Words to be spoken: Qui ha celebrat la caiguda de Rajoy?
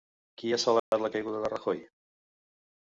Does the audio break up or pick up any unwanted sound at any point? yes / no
yes